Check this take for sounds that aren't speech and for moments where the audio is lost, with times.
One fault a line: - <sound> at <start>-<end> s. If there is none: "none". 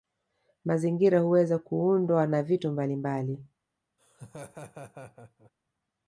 - laugh at 4.0-5.5 s